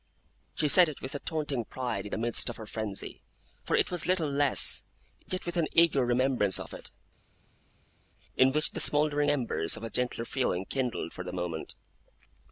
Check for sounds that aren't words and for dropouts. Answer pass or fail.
pass